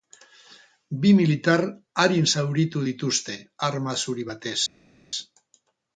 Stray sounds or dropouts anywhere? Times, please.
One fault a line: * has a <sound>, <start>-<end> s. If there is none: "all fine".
all fine